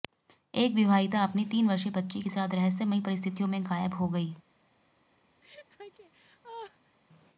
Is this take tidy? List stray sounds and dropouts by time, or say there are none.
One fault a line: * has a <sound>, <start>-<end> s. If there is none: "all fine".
* has a laugh, 5.4-7.0 s